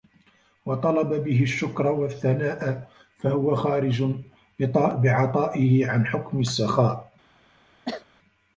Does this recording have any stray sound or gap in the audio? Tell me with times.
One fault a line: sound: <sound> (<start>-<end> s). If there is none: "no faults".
sound: cough (7.9-8.1 s)